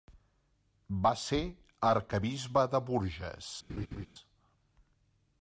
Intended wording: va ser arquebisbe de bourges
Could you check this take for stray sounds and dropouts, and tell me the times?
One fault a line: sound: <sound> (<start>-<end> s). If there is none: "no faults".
sound: laugh (3.7-4.1 s)